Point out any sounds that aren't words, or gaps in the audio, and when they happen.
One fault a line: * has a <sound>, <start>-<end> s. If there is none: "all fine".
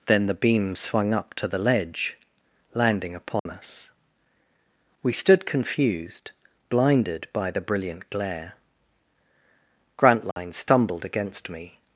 * has a dropout, 3.4-3.5 s
* has a dropout, 10.3-10.4 s